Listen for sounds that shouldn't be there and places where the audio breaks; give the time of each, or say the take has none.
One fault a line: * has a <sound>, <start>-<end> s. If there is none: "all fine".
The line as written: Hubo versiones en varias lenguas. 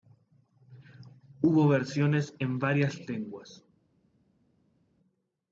all fine